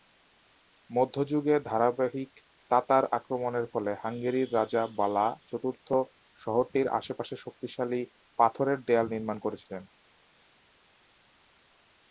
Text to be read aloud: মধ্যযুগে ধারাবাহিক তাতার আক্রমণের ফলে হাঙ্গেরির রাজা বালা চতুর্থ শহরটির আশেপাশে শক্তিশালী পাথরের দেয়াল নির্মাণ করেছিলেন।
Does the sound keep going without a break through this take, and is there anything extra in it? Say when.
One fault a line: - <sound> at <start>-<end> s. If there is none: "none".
none